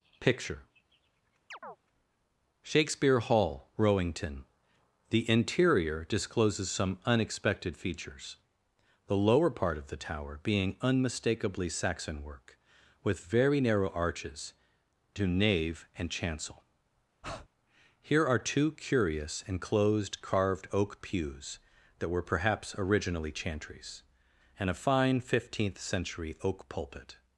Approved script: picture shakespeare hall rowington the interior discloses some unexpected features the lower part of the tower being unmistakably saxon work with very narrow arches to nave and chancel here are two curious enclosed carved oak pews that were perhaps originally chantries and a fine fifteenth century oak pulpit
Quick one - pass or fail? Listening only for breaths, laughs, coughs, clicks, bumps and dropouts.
fail